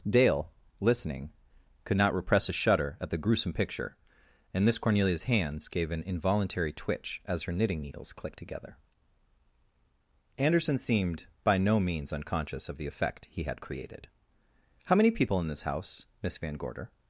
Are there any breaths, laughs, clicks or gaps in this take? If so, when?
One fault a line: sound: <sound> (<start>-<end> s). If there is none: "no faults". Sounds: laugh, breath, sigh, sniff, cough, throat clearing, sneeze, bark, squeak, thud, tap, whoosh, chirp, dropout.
no faults